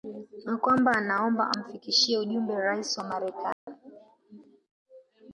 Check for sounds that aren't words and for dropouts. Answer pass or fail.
fail